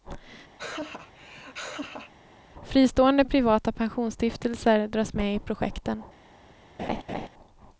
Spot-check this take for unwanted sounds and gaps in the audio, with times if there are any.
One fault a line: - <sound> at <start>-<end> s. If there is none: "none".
- laugh at 0.6-2.1 s
- laugh at 6.8-7.3 s